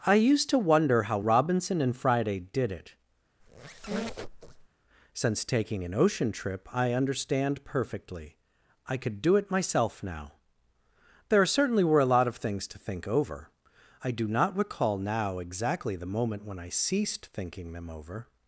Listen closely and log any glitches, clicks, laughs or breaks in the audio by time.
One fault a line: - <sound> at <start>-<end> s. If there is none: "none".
- squeak at 3.4-4.7 s